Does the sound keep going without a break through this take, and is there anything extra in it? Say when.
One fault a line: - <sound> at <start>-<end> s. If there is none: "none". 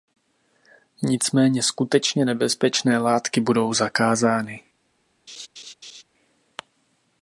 - laugh at 5.3-6.0 s